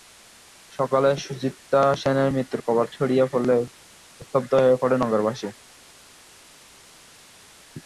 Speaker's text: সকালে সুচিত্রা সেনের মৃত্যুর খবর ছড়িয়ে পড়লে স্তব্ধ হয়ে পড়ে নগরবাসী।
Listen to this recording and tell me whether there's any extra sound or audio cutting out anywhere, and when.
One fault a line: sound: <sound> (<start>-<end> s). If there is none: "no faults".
no faults